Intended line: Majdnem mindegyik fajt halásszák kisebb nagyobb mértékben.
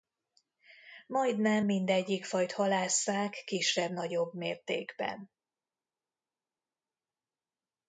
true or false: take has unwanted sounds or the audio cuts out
false